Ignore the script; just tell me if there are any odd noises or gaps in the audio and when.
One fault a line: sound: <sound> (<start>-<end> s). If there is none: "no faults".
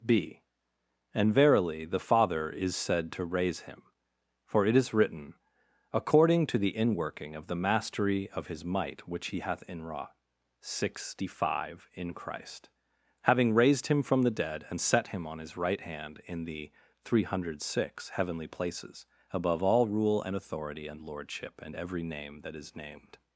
no faults